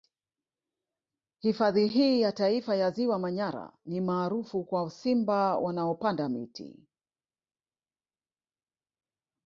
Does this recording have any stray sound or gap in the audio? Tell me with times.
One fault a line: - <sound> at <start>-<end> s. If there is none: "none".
none